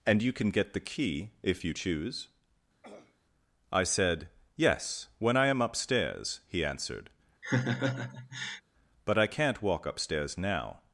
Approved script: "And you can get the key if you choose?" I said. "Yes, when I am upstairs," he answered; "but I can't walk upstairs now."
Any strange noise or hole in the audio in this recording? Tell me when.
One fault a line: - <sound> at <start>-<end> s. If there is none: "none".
- throat clearing at 2.8-3.2 s
- laugh at 7.4-8.6 s